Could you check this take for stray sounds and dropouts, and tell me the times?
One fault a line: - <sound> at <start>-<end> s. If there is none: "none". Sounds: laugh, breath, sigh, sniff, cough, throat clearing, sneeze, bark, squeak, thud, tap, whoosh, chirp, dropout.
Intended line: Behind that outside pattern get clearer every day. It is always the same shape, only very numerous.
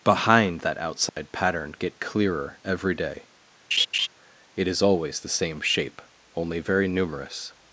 - dropout at 1.1-1.2 s
- laugh at 3.7-4.1 s